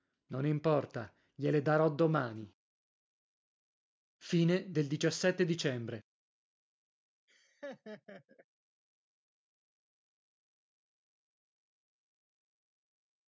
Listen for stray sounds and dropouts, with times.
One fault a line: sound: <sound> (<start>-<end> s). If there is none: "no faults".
sound: laugh (7.3-8.5 s)